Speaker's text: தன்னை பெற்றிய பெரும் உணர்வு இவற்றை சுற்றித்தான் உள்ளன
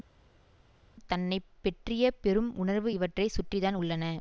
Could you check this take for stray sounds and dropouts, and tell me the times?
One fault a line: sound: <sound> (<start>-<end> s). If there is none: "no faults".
no faults